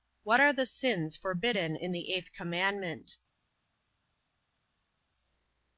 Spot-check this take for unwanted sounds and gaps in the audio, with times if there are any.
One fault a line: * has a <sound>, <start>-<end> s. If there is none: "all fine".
all fine